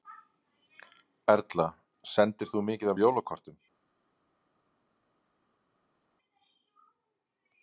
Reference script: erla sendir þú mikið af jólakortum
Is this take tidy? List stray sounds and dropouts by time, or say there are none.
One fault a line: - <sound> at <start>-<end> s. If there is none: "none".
none